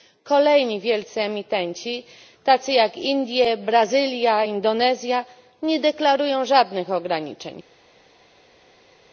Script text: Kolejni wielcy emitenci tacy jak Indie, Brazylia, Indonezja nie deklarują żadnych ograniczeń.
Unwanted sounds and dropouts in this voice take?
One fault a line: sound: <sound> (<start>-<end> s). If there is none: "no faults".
no faults